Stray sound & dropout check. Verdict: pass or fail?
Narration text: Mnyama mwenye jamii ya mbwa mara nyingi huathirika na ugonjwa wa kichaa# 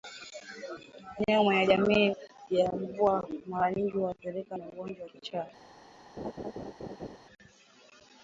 fail